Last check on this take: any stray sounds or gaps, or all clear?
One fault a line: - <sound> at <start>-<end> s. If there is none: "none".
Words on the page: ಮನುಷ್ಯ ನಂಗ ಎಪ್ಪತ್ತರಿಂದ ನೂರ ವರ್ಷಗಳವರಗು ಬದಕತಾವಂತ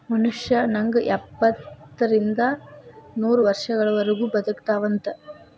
none